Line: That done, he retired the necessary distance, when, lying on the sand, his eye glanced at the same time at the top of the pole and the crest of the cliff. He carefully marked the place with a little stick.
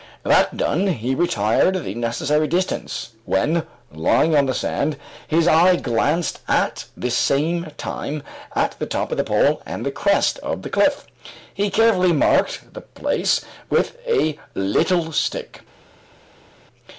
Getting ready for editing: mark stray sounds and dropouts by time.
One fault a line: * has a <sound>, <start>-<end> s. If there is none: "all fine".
all fine